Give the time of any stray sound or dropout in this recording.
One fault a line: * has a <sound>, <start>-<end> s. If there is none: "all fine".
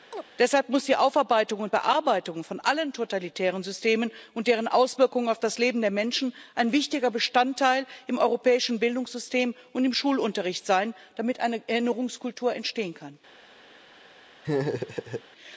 * has a chirp, 0.1-0.2 s
* has a laugh, 14.4-15.2 s